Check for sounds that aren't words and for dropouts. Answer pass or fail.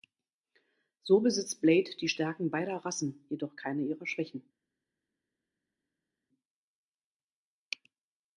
pass